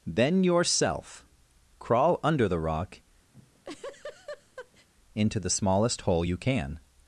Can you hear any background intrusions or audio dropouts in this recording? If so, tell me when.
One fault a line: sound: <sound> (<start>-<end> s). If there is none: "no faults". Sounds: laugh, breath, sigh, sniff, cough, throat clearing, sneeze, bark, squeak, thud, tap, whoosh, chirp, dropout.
sound: laugh (3.3-4.9 s)